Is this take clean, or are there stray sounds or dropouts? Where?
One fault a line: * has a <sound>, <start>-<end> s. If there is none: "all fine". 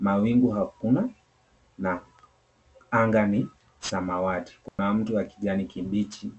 * has a dropout, 4.7-4.8 s